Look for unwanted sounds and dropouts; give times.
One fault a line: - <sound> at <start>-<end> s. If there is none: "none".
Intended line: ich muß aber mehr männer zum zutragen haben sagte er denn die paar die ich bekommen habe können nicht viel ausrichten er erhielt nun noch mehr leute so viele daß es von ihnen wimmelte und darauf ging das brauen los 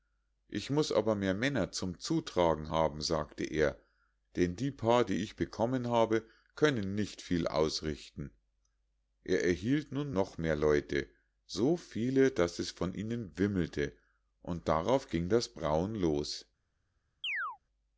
- chirp at 17.2-17.6 s